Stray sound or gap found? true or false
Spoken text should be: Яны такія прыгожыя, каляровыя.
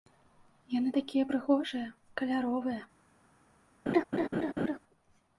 true